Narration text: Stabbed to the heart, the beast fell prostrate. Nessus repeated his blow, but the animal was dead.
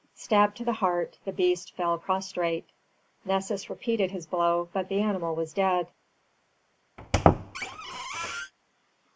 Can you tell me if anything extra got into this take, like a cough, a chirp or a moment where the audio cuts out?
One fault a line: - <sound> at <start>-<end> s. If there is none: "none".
- squeak at 7.0-8.5 s